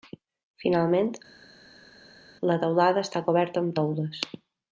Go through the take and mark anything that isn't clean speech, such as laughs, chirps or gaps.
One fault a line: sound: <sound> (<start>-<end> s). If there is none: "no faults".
no faults